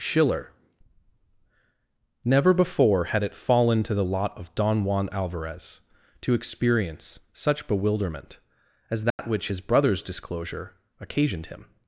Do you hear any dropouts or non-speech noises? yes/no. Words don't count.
yes